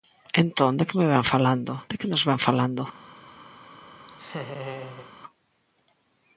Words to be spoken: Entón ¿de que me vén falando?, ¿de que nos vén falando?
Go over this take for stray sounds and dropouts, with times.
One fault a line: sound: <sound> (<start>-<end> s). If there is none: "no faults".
sound: laugh (4.1-5.1 s)